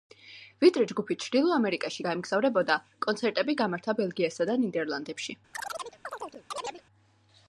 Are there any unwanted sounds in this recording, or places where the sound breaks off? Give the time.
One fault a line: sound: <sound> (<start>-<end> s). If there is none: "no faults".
sound: chirp (5.5-6.8 s)